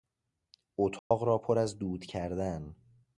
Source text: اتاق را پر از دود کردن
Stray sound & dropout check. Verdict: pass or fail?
fail